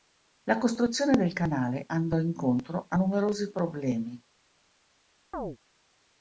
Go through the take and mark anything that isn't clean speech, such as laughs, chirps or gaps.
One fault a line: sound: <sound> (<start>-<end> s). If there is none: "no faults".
sound: chirp (5.3-5.6 s)